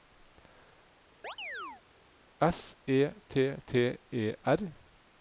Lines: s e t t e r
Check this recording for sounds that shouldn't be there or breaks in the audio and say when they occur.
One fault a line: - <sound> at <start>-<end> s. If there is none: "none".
- chirp at 1.2-1.8 s